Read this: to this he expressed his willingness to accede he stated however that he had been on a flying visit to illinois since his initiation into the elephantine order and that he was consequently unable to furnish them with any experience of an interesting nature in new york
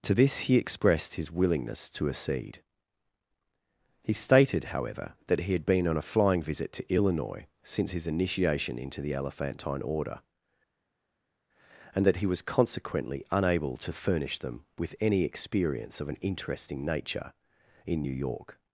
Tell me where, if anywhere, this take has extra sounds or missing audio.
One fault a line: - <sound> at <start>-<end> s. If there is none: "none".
none